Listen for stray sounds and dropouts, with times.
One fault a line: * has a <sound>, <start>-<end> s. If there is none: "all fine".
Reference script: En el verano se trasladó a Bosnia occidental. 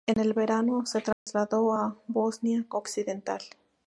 * has a dropout, 1.1-1.3 s